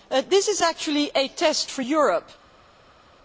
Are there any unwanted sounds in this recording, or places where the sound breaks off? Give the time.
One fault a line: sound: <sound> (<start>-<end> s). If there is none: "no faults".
no faults